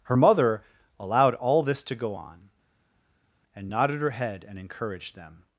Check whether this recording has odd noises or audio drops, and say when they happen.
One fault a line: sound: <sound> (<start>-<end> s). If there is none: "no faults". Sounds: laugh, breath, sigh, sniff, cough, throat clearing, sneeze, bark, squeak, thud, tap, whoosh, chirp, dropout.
no faults